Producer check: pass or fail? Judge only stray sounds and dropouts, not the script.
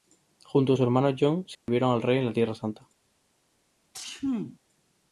fail